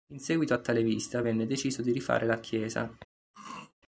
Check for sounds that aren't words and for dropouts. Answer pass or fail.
fail